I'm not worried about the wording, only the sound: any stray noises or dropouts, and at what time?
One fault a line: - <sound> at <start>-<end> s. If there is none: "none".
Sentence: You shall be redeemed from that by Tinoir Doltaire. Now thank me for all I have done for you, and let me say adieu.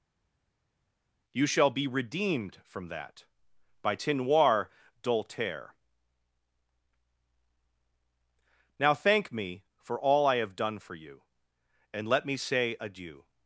none